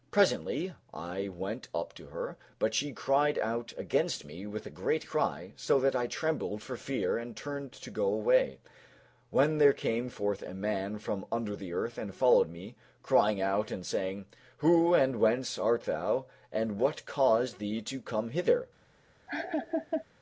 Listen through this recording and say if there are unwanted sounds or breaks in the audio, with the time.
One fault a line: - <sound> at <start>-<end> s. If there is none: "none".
- laugh at 19.3-20.0 s